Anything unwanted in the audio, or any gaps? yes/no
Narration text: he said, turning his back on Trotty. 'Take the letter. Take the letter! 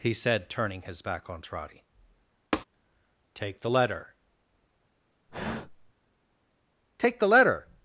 yes